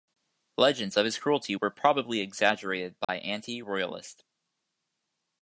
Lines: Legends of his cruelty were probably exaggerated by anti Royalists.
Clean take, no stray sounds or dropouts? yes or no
no